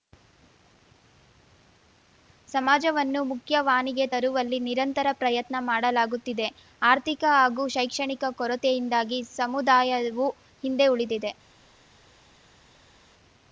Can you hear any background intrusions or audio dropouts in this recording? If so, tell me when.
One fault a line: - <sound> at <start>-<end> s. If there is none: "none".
none